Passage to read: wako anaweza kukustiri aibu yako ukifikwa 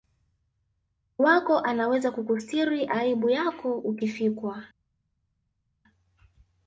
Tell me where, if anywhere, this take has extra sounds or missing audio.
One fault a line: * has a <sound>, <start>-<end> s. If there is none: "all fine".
all fine